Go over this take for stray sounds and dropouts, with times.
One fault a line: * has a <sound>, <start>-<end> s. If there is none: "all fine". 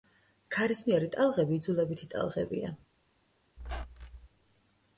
* has a squeak, 3.6-4.3 s